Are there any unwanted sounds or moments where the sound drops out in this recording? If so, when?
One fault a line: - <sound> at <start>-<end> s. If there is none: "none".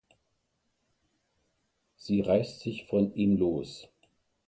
none